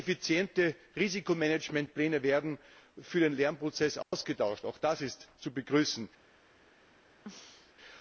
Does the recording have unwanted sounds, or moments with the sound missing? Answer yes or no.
yes